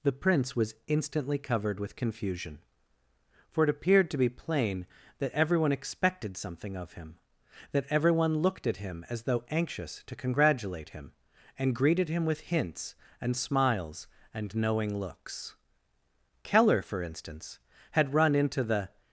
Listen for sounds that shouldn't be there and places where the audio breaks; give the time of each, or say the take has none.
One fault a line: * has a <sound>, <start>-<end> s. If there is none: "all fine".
all fine